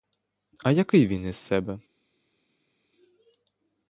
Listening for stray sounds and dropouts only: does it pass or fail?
pass